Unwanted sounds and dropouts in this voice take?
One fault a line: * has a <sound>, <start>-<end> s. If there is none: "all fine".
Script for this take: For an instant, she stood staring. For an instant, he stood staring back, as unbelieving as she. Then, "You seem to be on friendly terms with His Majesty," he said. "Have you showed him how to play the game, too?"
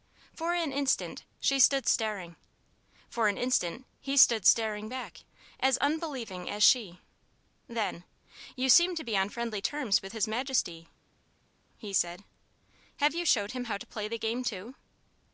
all fine